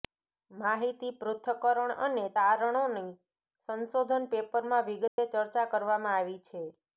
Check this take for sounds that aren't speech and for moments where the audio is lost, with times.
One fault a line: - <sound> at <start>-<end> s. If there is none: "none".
- dropout at 5.1-5.2 s